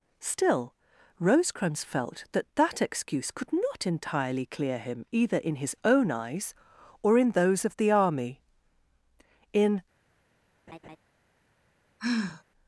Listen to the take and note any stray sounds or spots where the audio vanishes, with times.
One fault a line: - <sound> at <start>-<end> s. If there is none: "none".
- laugh at 10.7-11.0 s
- sigh at 12.0-12.4 s